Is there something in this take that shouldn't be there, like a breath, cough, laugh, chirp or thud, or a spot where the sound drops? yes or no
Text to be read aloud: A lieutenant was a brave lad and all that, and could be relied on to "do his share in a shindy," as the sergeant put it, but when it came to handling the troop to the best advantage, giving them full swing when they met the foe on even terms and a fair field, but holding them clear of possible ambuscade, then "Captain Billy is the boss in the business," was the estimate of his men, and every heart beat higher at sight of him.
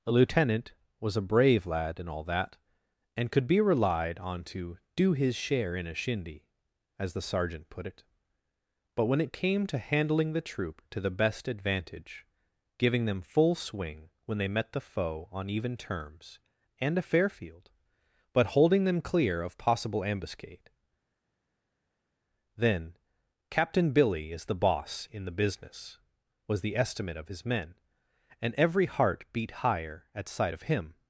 no